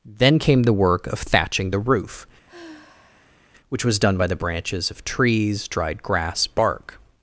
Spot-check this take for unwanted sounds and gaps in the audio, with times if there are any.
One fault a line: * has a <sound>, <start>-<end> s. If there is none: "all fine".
* has a sigh, 2.5-3.4 s